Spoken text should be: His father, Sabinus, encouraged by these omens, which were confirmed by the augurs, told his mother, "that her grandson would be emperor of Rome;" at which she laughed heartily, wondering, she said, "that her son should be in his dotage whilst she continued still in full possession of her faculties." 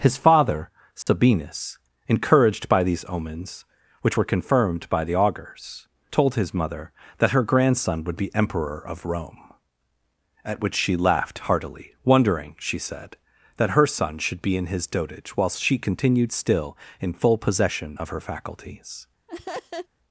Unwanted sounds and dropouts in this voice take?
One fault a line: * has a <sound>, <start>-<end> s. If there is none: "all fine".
* has a dropout, 1.0-1.1 s
* has a laugh, 19.3-19.9 s